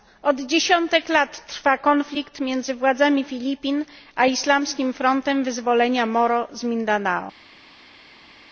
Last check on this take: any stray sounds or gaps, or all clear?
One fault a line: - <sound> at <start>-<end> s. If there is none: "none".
none